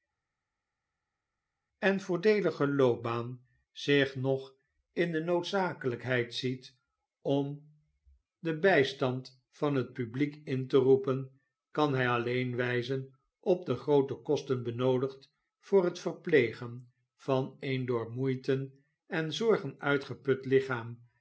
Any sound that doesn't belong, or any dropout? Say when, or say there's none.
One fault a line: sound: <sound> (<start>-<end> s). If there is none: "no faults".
no faults